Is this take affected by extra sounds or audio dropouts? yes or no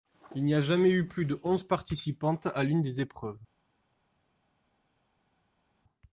no